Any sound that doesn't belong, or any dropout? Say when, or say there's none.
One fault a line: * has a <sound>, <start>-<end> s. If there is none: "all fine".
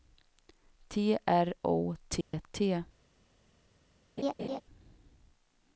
* has a dropout, 2.2-2.3 s
* has a laugh, 4.2-4.6 s